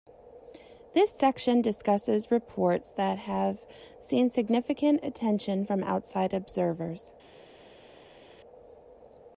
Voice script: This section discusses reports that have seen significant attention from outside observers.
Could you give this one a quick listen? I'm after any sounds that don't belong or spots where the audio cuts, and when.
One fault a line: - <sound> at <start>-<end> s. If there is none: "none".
none